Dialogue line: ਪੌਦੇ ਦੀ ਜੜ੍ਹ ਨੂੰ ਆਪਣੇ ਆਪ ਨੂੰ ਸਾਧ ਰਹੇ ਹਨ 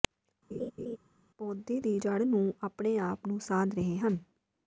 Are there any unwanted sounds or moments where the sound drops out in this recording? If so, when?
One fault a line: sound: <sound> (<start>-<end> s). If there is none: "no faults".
sound: laugh (0.5-1.0 s)